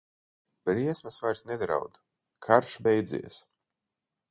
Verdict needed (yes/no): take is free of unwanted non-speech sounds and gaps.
yes